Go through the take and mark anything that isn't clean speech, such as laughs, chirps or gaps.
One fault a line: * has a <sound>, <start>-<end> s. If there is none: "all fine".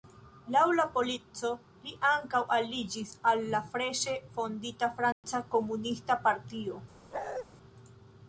* has a dropout, 5.1-5.2 s
* has a bark, 7.1-7.5 s